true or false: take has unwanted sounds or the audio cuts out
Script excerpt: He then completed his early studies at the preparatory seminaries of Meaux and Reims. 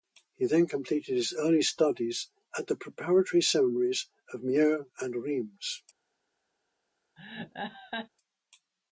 true